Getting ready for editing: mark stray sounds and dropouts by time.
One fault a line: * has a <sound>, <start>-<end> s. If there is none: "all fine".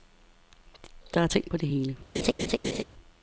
* has a laugh, 2.1-2.8 s